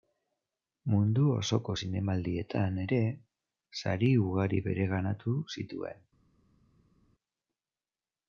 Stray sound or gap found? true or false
false